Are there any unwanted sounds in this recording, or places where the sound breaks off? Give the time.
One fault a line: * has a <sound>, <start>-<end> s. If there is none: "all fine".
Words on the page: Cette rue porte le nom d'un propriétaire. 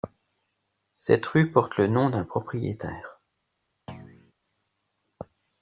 * has a thud, 3.9-4.3 s